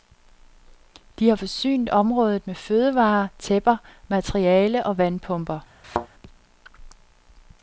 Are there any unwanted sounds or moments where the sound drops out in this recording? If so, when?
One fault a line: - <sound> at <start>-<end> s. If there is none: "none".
- thud at 5.8-6.1 s